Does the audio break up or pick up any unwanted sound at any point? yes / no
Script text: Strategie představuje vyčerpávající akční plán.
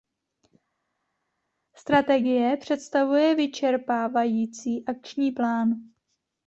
no